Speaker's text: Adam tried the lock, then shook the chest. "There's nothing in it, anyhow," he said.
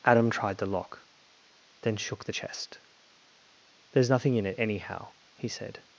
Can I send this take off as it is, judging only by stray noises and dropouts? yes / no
yes